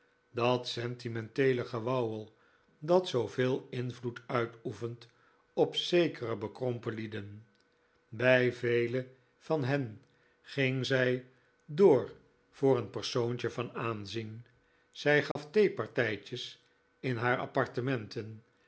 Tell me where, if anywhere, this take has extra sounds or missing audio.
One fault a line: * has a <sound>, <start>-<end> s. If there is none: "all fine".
* has a dropout, 15.3-15.4 s